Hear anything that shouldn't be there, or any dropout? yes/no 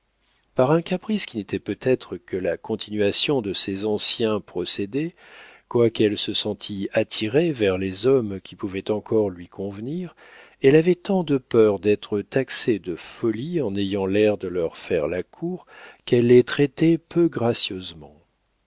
no